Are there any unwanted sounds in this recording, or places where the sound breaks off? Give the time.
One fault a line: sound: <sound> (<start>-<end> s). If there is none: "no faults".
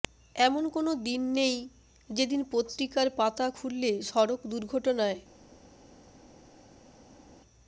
no faults